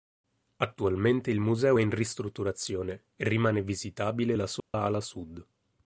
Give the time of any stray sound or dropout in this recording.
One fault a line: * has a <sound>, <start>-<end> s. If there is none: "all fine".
* has a dropout, 4.6-4.7 s